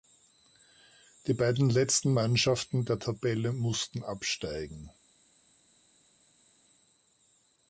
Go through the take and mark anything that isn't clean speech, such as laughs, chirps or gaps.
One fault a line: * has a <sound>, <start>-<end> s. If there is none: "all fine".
all fine